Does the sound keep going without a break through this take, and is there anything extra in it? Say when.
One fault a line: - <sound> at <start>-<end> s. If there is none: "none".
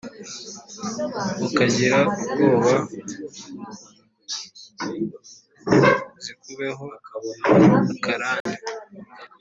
- dropout at 8.4-8.5 s